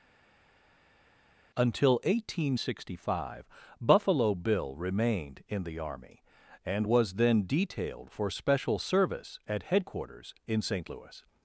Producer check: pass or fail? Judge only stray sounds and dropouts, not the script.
pass